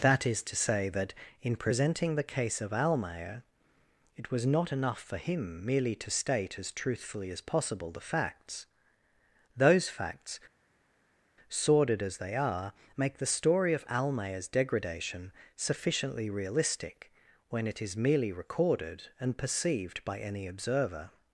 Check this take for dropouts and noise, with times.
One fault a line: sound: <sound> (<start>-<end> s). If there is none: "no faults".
no faults